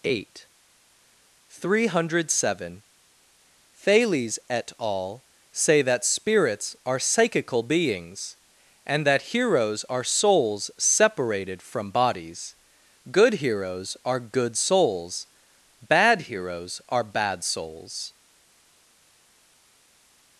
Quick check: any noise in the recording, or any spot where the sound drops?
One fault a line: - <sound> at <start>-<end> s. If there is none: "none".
none